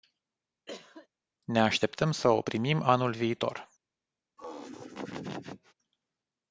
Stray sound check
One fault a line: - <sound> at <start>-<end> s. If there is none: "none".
- cough at 0.7-1.1 s
- laugh at 4.4-5.7 s